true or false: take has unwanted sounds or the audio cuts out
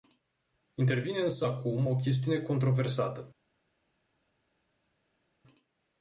false